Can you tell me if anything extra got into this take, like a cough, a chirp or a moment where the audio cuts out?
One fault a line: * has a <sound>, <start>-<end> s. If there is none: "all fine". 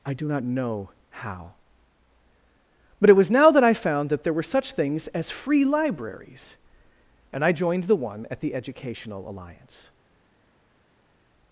all fine